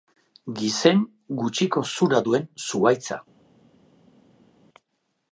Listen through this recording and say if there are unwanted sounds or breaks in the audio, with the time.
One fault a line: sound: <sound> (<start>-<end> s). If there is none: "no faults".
no faults